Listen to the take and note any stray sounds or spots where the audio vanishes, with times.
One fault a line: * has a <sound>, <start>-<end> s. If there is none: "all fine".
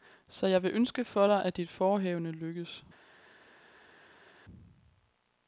all fine